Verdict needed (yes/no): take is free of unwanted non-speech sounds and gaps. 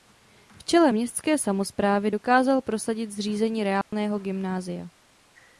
no